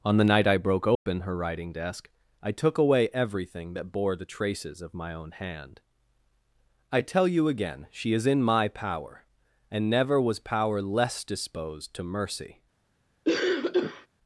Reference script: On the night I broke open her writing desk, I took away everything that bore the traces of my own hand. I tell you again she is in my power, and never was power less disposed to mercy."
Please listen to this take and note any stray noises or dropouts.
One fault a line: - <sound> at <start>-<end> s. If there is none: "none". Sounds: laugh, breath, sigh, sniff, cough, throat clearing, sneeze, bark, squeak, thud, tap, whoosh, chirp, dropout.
- dropout at 0.9-1.1 s
- cough at 13.2-14.1 s